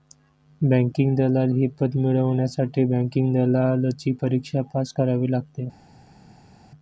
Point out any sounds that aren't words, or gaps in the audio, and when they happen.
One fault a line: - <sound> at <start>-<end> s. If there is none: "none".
none